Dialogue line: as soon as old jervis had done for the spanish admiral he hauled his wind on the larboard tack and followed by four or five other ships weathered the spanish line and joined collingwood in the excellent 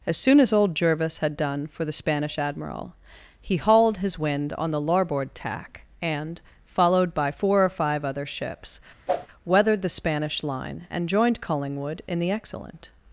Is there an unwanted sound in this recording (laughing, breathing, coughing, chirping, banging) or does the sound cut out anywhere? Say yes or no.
yes